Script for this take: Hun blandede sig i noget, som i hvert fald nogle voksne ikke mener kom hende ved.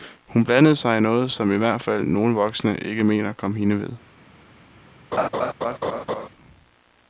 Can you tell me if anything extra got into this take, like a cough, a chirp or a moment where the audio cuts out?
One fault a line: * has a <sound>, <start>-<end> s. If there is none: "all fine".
* has a laugh, 5.1-6.3 s